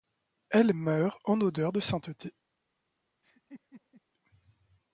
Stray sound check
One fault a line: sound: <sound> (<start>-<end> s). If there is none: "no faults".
sound: laugh (3.2-4.0 s)